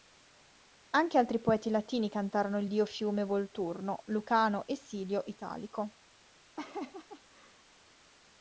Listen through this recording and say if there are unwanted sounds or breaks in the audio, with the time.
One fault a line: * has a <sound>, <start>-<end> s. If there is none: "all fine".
* has a laugh, 6.6-7.6 s